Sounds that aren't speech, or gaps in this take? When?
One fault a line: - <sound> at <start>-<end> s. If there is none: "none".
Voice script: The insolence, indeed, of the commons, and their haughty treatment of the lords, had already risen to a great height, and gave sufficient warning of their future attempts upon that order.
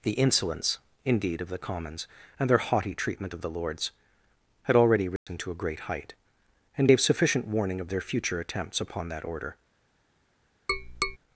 - dropout at 5.2-5.3 s
- tap at 10.7-11.2 s